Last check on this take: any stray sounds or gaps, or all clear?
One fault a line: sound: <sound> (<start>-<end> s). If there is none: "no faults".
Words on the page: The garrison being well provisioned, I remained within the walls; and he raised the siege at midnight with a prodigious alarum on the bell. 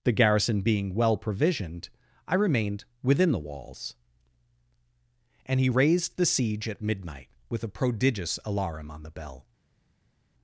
no faults